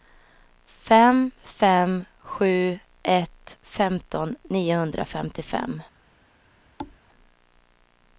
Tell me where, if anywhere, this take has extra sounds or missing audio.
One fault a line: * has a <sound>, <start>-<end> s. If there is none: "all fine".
* has a thud, 6.8-7.0 s